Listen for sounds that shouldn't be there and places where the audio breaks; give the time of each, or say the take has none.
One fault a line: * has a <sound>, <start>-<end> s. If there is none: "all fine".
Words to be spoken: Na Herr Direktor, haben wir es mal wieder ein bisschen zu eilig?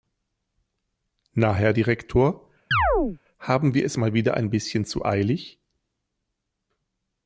* has a chirp, 2.7-3.2 s